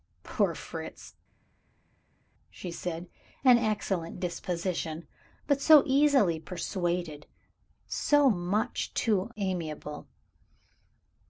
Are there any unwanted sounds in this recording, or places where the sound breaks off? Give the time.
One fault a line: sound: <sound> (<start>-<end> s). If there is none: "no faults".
no faults